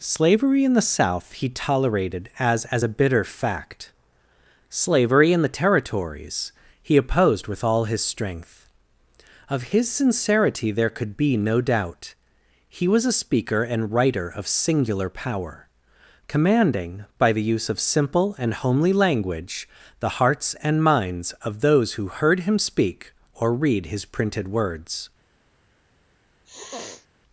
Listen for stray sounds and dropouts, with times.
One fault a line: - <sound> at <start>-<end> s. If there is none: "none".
- sniff at 26.4-27.1 s